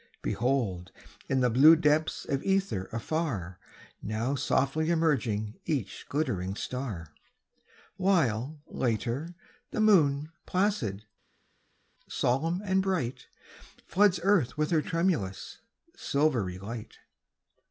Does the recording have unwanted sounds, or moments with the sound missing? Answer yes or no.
no